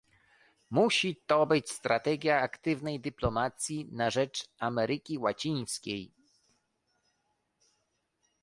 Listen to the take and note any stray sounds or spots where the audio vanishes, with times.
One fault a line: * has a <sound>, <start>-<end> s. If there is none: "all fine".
all fine